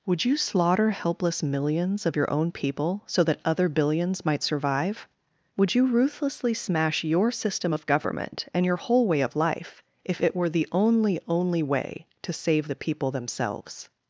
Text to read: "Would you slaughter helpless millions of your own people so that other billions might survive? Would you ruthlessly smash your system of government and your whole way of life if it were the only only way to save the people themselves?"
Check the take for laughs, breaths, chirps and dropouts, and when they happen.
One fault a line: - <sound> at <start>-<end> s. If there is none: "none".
none